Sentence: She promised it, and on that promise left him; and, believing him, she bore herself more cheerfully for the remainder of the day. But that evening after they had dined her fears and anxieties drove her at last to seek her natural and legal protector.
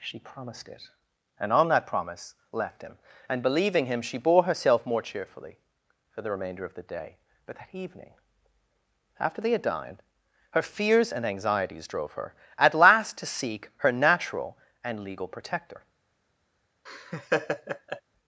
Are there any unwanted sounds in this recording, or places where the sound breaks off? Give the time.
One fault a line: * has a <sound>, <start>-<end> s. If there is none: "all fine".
* has a laugh, 16.9-18.0 s